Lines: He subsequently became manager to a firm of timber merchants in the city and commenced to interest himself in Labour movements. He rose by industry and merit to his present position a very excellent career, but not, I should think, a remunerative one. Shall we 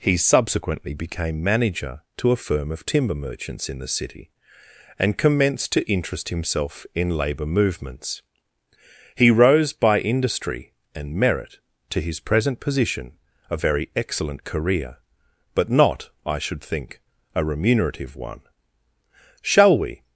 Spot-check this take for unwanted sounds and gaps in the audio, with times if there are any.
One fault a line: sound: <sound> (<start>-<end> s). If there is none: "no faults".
no faults